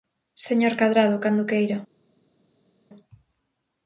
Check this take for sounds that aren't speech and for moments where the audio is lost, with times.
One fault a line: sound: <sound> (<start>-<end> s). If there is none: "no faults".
no faults